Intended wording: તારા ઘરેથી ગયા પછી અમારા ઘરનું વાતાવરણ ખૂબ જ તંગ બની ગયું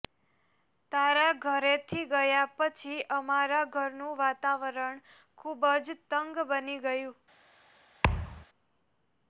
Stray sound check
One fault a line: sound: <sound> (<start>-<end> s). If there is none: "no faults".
sound: thud (8.0-8.5 s)